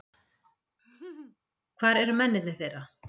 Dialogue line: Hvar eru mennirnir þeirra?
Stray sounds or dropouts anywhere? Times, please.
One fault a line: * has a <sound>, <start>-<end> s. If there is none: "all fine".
* has a laugh, 0.8-1.4 s